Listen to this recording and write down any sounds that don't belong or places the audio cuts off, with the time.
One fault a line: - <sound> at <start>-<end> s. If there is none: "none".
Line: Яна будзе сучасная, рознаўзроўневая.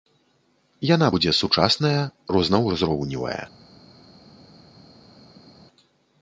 none